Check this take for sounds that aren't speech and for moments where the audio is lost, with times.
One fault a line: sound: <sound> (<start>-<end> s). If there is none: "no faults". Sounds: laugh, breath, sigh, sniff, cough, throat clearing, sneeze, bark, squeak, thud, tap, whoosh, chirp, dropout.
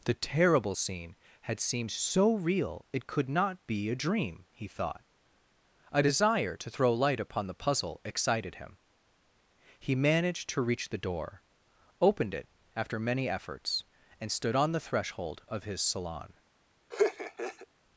sound: laugh (16.9-17.7 s)